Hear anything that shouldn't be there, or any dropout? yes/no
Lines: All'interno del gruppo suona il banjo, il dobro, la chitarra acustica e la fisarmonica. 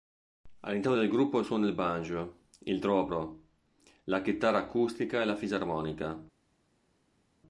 no